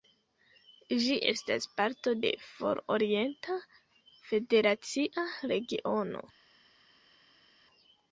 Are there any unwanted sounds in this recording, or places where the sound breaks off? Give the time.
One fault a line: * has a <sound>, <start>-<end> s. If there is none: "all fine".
all fine